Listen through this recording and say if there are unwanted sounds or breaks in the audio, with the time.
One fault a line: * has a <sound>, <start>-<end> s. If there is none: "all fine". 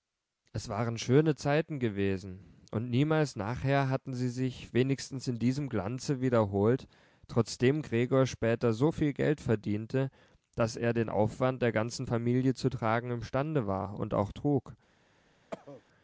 * has a cough, 15.5-15.8 s